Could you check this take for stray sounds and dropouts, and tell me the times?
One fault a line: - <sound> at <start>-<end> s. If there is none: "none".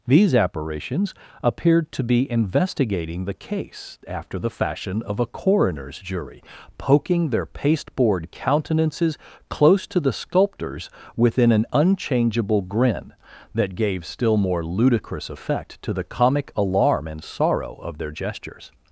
none